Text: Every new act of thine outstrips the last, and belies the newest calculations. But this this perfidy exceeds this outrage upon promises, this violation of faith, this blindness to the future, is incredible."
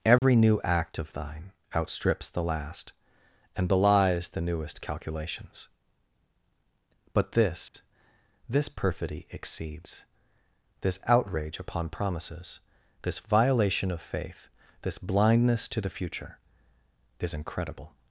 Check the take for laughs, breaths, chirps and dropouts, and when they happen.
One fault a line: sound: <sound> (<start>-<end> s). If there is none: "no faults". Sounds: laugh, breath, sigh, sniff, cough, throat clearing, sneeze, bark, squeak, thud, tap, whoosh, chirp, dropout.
sound: dropout (0.2-0.2 s)
sound: dropout (7.7-7.7 s)